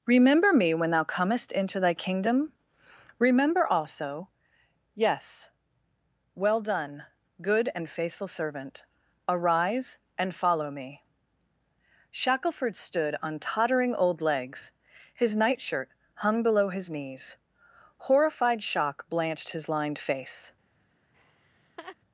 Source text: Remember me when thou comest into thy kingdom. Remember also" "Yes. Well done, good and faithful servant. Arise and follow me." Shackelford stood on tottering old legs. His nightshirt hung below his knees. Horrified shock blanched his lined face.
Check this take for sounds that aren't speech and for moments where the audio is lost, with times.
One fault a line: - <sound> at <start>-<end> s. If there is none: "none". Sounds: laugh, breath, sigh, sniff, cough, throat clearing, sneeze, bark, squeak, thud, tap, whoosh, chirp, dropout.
- laugh at 21.1-22.0 s